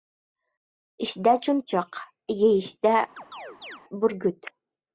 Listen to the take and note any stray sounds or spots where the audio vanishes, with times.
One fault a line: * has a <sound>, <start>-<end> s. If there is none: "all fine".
* has a chirp, 3.2-3.8 s